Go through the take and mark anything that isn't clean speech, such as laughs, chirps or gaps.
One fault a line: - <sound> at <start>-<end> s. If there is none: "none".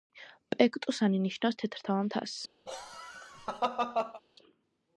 - laugh at 2.7-4.2 s